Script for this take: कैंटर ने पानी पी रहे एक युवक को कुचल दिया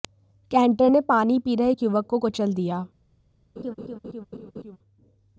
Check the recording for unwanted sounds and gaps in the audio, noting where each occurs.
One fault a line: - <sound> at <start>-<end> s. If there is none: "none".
- laugh at 3.6-4.8 s